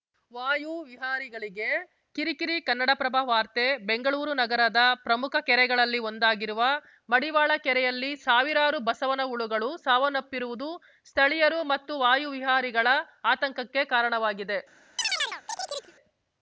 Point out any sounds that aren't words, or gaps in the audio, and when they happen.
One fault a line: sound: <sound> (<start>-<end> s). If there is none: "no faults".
sound: chirp (15.0-15.9 s)